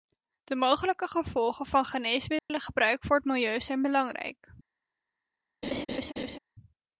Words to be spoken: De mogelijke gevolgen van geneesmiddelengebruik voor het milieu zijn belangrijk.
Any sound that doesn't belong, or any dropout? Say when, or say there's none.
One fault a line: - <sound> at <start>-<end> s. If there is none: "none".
- dropout at 2.4-2.5 s
- laugh at 5.6-6.4 s